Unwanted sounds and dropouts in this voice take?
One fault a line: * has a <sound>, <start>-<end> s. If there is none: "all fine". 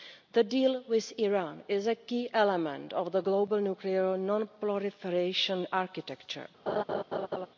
* has a laugh, 6.7-7.5 s